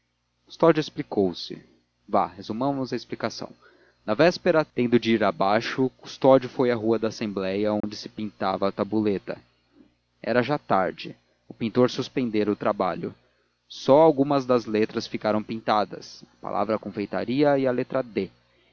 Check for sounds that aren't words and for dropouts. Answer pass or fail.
fail